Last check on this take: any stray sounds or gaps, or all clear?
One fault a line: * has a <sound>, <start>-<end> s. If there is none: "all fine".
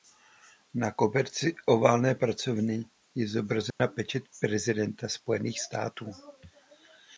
* has a dropout, 3.7-3.8 s